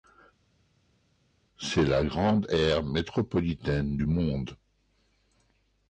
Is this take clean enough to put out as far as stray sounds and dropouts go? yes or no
yes